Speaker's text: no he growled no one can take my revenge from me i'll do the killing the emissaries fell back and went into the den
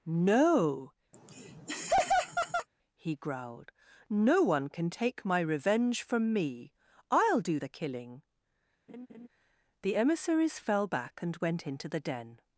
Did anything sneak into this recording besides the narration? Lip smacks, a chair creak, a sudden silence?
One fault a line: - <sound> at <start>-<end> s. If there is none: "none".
- laugh at 1.1-2.7 s
- laugh at 8.9-9.3 s